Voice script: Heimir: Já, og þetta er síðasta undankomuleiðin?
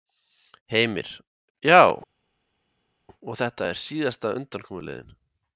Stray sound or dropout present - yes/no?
no